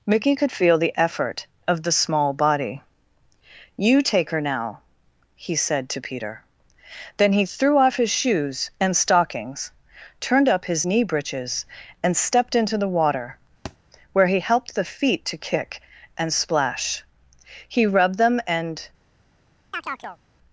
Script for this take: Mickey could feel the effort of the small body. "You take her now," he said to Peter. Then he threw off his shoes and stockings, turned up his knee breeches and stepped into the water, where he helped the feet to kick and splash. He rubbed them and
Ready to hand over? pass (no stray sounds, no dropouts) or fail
fail